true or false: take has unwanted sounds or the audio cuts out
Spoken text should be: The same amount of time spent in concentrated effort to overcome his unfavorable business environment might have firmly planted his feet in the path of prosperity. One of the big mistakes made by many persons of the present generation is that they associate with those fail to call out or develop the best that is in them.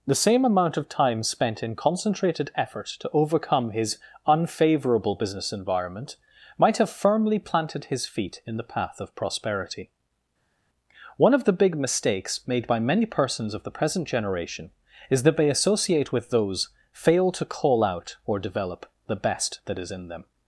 false